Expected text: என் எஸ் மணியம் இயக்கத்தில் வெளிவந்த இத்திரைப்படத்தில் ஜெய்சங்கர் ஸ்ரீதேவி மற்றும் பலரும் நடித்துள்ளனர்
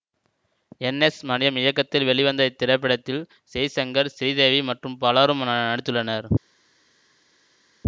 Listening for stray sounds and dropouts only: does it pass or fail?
pass